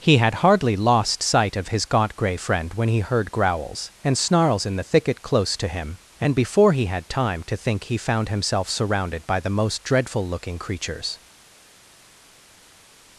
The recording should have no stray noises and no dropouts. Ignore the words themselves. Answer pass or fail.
pass